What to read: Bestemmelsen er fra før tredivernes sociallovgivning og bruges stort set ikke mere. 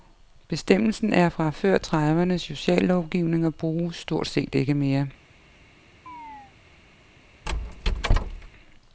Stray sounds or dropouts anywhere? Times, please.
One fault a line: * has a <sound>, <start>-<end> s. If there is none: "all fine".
* has a chirp, 6.1-6.5 s
* has a squeak, 7.5-8.5 s